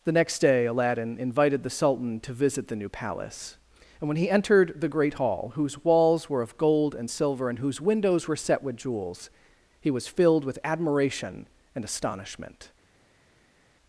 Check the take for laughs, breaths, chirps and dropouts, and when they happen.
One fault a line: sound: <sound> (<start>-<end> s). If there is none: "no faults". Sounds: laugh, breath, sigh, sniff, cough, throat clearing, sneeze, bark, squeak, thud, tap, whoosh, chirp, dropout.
no faults